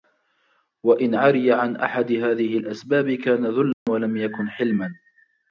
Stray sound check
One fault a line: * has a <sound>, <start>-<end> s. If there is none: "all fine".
* has a dropout, 3.7-3.9 s